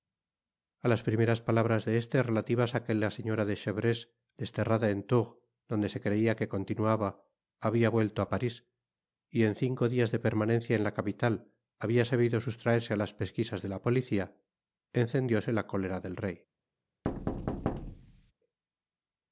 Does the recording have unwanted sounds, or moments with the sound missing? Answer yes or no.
yes